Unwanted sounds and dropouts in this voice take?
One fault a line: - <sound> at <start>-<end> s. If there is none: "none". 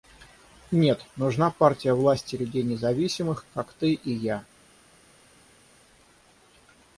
none